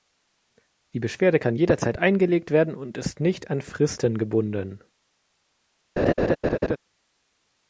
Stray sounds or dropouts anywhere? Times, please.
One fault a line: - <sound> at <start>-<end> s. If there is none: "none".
- laugh at 6.0-6.8 s